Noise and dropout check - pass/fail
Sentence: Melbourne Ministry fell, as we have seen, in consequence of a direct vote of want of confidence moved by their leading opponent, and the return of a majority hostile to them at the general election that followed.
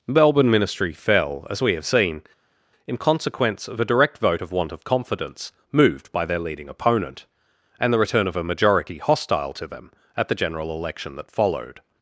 pass